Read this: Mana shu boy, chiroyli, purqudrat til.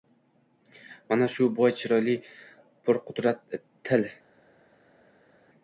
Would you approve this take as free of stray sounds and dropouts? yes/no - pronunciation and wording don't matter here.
yes